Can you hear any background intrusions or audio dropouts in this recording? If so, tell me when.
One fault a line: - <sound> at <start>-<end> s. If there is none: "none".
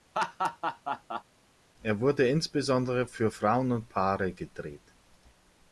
- laugh at 0.1-1.2 s